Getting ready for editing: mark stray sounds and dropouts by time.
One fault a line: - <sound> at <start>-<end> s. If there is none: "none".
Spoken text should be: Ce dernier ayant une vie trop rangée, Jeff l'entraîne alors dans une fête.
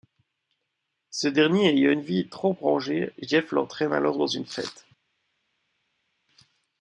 none